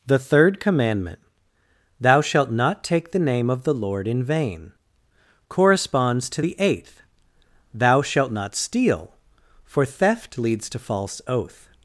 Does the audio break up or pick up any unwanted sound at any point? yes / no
no